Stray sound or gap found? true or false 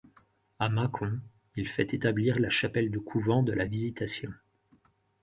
false